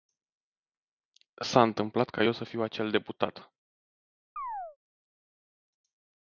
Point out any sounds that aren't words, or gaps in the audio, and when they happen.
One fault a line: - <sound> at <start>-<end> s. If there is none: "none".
- chirp at 4.4-4.8 s